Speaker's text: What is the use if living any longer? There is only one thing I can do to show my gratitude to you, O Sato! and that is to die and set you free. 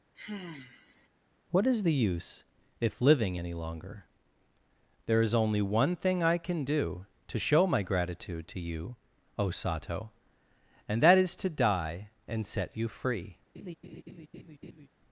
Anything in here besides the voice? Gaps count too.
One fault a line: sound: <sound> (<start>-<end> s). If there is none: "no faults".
sound: sigh (0.1-1.1 s)
sound: laugh (13.5-14.9 s)